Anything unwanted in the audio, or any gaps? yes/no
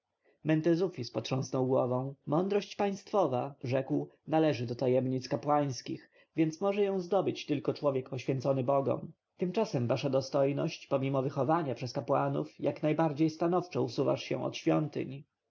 no